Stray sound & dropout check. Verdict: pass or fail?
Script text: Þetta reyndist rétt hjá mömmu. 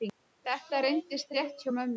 pass